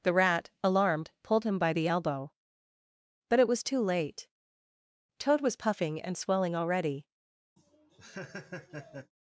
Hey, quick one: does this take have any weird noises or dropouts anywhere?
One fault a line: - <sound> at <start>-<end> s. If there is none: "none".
- laugh at 7.6-9.1 s